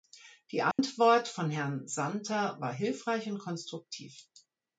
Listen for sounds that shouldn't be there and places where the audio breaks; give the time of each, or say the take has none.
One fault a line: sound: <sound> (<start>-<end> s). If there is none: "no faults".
sound: dropout (0.7-0.8 s)